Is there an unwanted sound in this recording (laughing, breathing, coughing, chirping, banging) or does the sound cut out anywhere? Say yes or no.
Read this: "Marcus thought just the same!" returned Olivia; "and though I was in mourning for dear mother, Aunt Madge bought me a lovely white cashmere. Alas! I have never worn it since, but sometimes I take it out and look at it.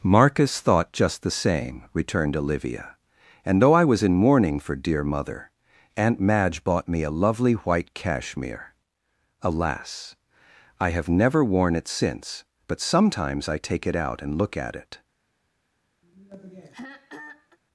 yes